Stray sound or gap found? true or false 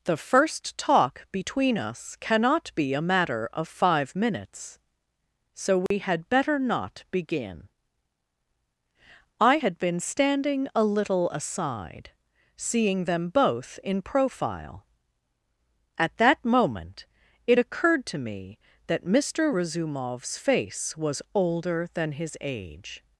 true